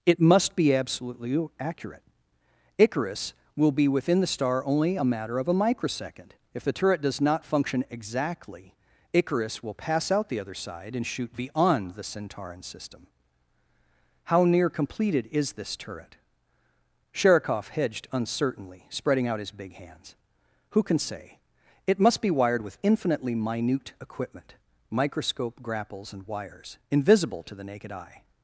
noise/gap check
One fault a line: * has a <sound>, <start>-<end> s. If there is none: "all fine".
all fine